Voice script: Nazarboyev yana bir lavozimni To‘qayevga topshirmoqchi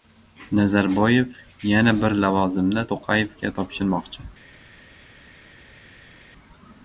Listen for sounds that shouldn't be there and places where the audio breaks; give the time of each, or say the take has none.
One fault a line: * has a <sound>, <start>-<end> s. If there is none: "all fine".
all fine